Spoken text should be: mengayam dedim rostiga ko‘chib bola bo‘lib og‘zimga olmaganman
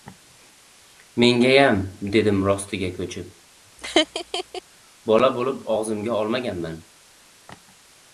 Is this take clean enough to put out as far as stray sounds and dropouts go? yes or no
no